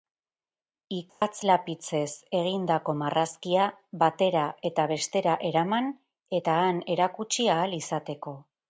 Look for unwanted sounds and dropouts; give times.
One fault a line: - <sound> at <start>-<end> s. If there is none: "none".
- dropout at 1.1-1.2 s